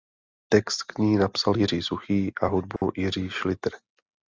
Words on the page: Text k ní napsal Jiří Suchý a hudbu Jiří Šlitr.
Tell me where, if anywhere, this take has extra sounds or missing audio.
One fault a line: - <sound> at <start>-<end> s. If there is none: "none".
- dropout at 2.8-2.8 s